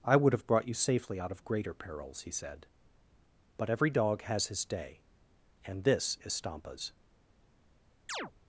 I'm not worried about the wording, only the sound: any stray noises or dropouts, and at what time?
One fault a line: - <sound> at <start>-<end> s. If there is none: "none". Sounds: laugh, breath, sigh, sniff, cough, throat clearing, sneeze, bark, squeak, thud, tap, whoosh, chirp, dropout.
- chirp at 8.1-8.3 s